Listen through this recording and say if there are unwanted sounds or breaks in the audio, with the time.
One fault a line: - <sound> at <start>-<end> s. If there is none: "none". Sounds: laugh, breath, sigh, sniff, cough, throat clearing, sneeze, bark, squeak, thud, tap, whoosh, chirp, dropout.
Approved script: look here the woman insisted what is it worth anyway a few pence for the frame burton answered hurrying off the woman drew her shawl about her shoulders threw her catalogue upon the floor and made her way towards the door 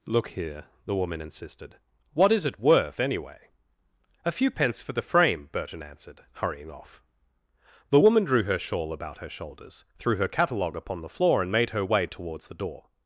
none